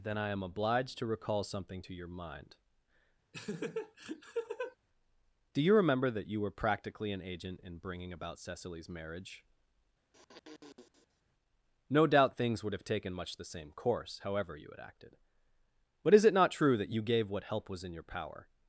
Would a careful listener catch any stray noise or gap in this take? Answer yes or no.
yes